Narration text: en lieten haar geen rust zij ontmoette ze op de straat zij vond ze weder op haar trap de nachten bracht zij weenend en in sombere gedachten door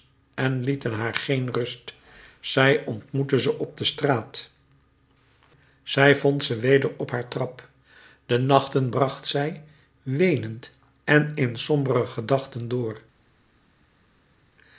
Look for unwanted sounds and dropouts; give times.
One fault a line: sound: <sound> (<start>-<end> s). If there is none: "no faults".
no faults